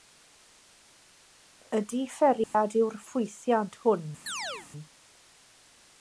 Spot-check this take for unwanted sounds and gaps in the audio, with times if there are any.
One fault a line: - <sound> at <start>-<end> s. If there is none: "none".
- dropout at 2.4-2.5 s
- chirp at 4.3-4.7 s